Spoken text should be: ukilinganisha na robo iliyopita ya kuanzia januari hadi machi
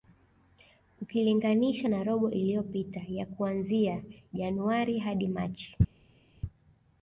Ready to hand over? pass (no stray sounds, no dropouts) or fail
pass